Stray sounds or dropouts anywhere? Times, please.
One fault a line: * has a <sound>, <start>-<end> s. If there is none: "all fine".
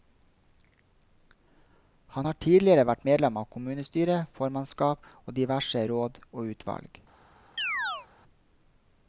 * has a chirp, 7.6-8.1 s